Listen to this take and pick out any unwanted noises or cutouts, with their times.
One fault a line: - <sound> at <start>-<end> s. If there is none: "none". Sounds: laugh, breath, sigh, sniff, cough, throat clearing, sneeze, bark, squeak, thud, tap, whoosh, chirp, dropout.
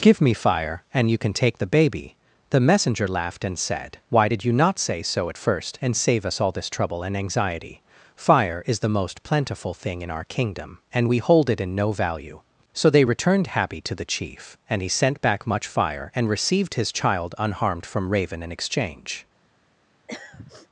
- throat clearing at 20.1-20.7 s